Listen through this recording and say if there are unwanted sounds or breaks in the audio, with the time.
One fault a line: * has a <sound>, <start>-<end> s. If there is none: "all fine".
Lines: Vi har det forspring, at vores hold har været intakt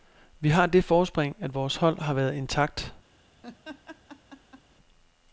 * has a laugh, 3.4-4.6 s